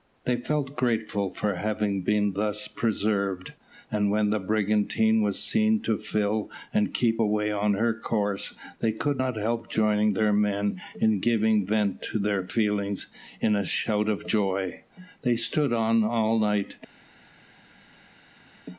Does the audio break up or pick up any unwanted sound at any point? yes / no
no